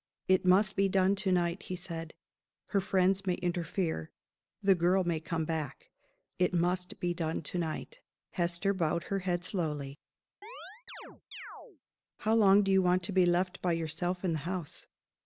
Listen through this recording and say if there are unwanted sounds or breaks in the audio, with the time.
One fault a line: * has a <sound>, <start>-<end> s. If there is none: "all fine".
* has a chirp, 10.4-11.8 s